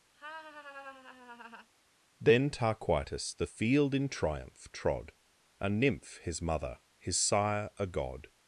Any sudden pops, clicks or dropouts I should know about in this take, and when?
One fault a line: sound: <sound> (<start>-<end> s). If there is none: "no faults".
sound: laugh (0.1-1.7 s)